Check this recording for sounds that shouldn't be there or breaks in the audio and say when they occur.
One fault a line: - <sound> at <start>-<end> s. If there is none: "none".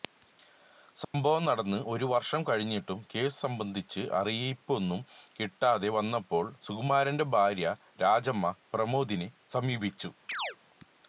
- dropout at 1.0-1.1 s
- chirp at 10.3-10.6 s